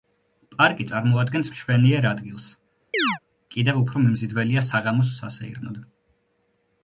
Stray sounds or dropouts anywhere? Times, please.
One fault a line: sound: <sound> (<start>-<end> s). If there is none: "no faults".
sound: chirp (2.9-3.2 s)